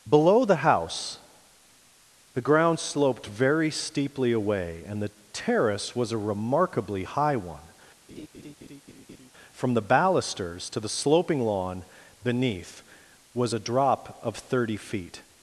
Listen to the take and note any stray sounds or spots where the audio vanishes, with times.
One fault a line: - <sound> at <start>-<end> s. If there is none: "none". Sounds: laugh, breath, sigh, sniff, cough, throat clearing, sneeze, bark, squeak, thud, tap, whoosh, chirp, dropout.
- laugh at 8.1-9.3 s